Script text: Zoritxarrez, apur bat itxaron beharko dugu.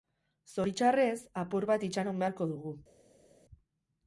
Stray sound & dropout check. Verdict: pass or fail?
pass